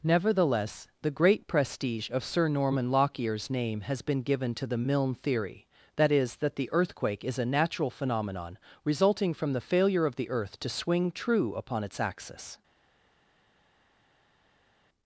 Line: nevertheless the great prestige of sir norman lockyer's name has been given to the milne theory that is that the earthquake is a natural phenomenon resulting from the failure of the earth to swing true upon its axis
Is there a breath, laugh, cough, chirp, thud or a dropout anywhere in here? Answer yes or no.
no